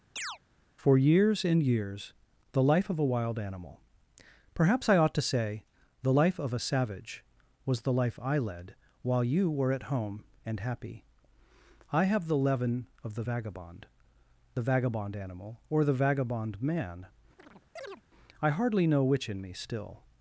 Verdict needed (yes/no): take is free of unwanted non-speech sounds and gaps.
no